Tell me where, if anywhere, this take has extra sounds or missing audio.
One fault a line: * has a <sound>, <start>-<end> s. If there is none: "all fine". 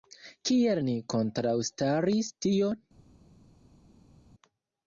all fine